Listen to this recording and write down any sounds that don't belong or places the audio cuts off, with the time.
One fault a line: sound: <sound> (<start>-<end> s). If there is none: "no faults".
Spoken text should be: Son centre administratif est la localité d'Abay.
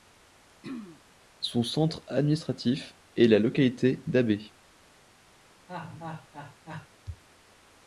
sound: throat clearing (0.6-1.0 s)
sound: laugh (5.7-6.9 s)